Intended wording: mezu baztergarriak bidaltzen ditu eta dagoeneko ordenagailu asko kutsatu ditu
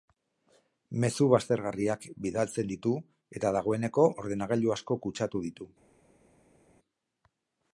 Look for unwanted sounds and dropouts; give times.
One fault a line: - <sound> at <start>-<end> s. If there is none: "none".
none